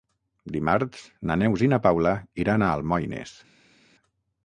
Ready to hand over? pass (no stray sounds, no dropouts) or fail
pass